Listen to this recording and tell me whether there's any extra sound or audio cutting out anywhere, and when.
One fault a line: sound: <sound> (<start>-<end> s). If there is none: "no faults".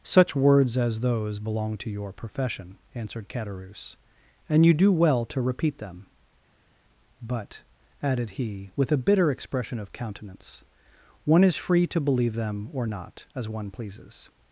no faults